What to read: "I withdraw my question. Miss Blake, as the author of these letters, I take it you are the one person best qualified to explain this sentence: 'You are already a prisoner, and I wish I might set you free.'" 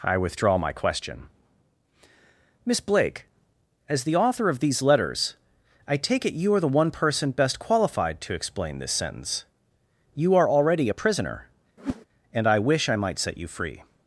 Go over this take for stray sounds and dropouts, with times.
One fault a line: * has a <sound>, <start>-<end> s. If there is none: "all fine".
* has a whoosh, 11.8-12.1 s